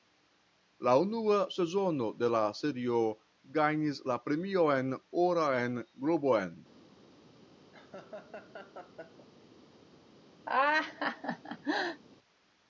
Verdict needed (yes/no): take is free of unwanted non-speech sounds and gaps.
no